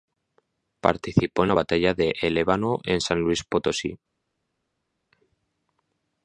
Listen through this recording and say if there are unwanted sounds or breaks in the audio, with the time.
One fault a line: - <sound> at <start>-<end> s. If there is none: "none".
none